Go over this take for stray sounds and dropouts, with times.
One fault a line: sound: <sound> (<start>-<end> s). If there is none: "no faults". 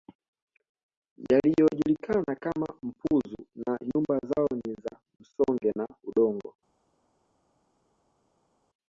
no faults